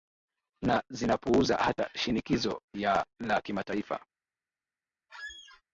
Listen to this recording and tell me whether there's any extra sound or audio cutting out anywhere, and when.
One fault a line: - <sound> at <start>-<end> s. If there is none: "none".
- squeak at 5.1-5.6 s